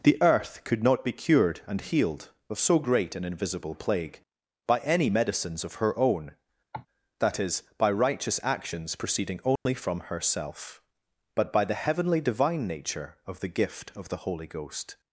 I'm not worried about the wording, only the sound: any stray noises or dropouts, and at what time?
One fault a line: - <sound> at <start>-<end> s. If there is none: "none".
- cough at 6.7-6.9 s
- dropout at 9.6-9.7 s